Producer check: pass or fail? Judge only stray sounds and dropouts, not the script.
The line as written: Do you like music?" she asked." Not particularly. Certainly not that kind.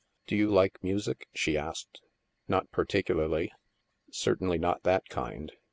pass